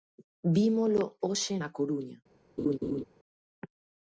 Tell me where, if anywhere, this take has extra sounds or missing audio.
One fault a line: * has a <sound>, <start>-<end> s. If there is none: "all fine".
* has a laugh, 2.6-3.0 s